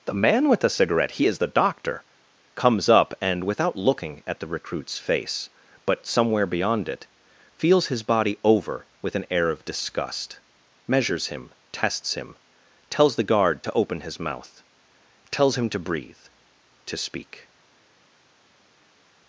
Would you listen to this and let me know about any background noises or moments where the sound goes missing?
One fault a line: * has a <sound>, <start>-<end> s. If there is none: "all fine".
all fine